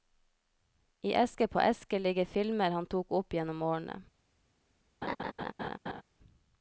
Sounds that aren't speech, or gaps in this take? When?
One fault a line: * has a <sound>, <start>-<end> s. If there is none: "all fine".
* has a laugh, 5.0-6.0 s